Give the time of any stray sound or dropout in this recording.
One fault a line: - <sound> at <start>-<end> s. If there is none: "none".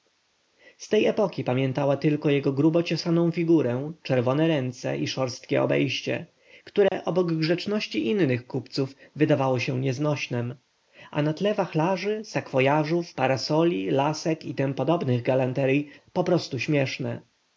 - dropout at 6.9-6.9 s